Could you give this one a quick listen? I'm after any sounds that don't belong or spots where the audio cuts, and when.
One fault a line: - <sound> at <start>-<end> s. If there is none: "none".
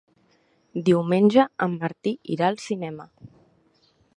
none